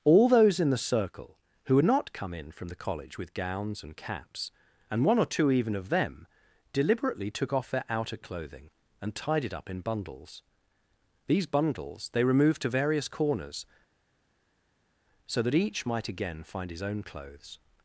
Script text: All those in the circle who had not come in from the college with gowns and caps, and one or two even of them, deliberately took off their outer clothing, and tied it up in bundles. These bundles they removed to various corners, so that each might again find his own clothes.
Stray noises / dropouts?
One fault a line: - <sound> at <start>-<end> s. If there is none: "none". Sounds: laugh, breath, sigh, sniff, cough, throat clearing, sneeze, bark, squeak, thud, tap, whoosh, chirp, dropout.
none